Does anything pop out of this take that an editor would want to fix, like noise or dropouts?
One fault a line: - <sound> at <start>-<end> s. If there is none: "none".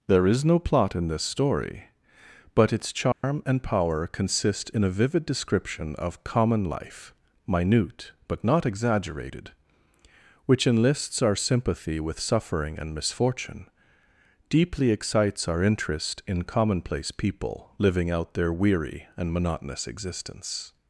- dropout at 3.1-3.2 s